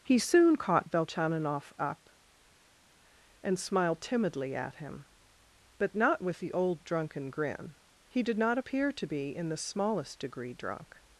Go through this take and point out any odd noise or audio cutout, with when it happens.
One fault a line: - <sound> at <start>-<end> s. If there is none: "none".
none